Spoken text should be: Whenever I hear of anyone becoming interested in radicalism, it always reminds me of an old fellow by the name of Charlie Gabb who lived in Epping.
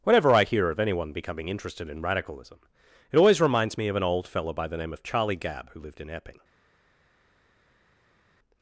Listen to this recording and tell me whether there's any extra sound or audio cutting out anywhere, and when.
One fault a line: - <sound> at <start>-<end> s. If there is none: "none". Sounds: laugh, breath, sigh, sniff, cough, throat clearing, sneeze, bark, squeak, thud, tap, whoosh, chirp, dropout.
none